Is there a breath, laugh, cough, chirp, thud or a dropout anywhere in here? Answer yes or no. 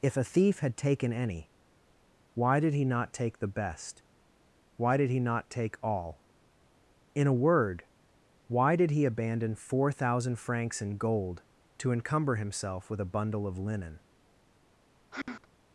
yes